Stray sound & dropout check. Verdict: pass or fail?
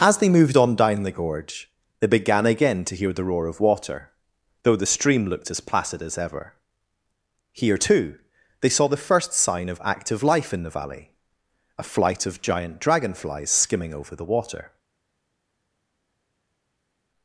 pass